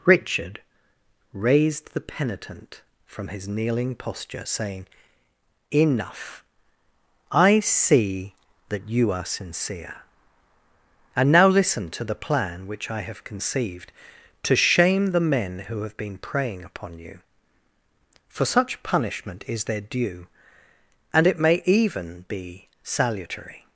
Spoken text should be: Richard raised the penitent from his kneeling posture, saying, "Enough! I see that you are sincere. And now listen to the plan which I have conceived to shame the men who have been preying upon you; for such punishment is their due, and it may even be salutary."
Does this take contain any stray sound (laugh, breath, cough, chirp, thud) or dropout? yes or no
no